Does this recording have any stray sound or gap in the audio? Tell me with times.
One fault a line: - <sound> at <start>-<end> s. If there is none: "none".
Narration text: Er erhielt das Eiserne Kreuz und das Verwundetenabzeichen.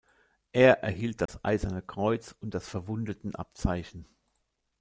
- dropout at 1.3-1.3 s